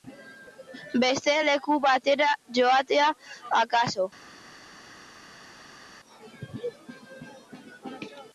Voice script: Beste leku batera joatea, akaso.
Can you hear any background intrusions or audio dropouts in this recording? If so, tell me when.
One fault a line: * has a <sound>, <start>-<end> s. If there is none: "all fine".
all fine